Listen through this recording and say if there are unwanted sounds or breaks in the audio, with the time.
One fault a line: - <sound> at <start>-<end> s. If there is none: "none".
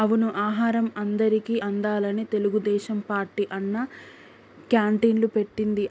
none